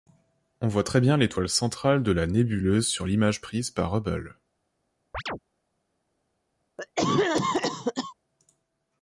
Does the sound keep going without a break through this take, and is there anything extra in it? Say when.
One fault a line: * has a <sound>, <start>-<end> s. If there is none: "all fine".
* has a chirp, 5.1-5.4 s
* has a cough, 6.8-8.1 s